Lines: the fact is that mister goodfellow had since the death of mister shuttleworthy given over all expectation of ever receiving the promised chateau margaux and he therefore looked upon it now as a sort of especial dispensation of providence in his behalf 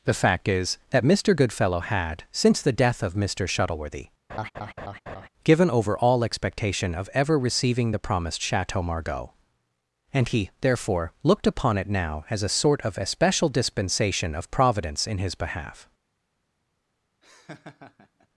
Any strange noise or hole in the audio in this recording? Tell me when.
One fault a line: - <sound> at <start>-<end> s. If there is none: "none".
- laugh at 4.3-5.3 s
- laugh at 17.2-18.3 s